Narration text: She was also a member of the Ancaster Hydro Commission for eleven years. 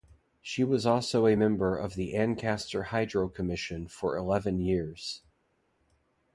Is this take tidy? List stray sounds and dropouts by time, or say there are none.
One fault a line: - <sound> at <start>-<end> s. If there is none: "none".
none